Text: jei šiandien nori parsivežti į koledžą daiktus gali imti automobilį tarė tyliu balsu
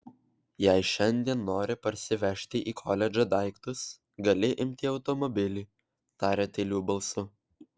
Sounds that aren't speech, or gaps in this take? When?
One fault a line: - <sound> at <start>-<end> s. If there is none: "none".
none